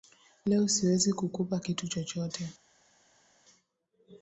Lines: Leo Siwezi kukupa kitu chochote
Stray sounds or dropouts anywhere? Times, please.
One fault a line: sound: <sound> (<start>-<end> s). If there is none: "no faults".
no faults